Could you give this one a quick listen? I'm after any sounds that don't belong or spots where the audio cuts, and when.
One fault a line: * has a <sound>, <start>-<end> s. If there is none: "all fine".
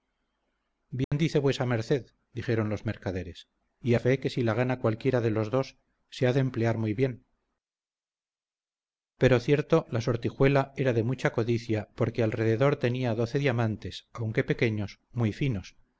* has a dropout, 1.0-1.1 s